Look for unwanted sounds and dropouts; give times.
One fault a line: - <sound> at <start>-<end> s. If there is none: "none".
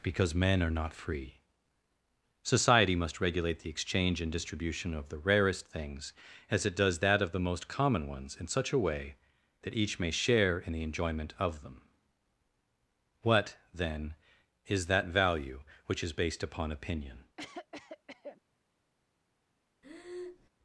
- cough at 17.4-18.4 s
- breath at 19.8-20.5 s